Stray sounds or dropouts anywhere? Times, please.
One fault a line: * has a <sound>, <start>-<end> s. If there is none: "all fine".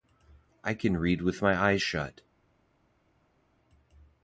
all fine